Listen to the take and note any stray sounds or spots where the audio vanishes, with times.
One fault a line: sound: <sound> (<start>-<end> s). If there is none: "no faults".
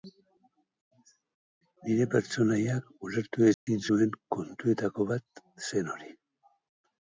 sound: dropout (3.5-3.7 s)